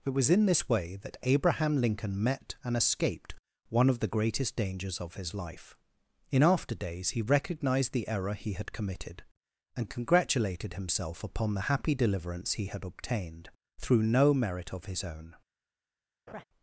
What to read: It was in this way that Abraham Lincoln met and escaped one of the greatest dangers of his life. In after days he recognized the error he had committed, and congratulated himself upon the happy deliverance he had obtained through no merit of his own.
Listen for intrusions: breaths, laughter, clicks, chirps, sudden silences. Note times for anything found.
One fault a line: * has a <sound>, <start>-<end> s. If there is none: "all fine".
* has a laugh, 16.3-16.4 s